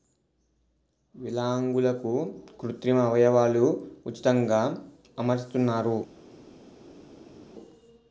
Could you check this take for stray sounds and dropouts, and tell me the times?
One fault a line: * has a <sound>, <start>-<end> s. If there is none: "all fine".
all fine